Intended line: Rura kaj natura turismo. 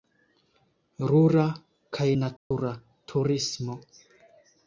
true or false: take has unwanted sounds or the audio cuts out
true